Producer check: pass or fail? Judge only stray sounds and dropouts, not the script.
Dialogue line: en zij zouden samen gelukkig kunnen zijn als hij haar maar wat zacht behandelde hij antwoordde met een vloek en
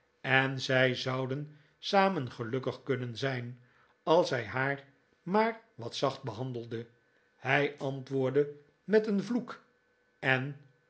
pass